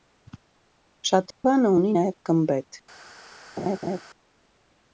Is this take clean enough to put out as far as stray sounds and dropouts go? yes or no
no